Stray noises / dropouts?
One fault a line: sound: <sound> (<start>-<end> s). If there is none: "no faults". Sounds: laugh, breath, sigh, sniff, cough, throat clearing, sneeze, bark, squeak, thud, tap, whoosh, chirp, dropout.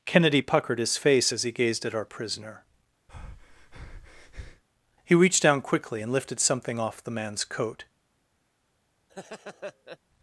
sound: breath (3.1-4.6 s)
sound: laugh (9.1-10.0 s)